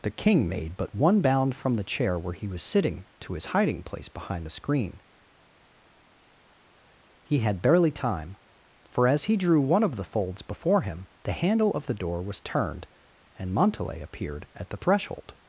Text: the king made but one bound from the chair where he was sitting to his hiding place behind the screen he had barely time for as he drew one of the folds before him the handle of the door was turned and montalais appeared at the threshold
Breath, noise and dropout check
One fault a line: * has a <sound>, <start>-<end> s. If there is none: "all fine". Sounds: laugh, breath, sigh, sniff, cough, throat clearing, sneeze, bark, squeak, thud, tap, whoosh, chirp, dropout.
all fine